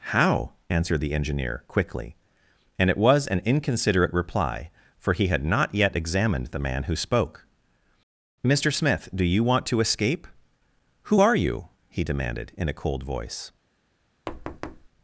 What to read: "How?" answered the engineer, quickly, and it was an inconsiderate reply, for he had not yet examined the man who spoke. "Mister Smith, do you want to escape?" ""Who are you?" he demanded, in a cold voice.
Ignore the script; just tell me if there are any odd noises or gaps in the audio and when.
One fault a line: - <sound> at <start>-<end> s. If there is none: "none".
- thud at 14.3-14.9 s